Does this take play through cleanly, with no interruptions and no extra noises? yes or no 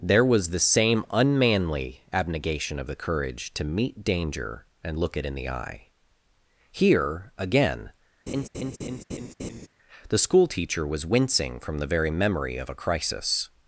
no